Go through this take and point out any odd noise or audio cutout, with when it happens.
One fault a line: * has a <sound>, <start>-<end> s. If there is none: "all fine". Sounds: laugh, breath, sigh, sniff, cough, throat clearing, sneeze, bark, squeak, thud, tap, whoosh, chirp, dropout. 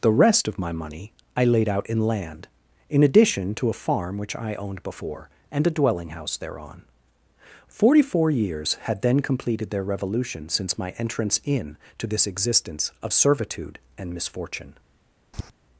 * has a tap, 15.3-15.5 s